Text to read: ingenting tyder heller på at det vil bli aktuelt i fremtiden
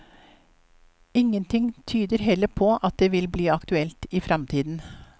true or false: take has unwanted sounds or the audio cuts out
false